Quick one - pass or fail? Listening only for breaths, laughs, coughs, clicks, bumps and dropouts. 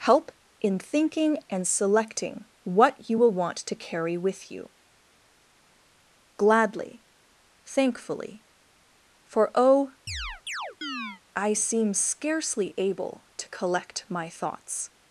fail